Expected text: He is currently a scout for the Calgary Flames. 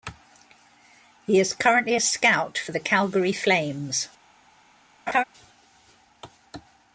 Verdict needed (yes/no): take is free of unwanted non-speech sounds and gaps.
no